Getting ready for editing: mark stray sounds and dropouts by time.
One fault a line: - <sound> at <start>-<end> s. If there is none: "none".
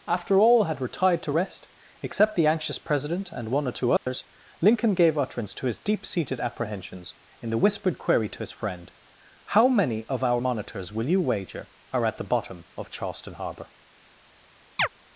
- dropout at 4.0-4.1 s
- chirp at 14.8-14.9 s